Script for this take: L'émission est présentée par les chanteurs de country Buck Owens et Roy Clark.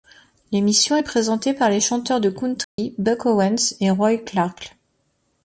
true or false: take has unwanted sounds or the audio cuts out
true